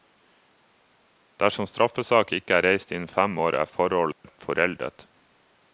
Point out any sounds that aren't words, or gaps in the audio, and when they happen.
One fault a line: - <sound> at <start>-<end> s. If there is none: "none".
- dropout at 4.1-4.2 s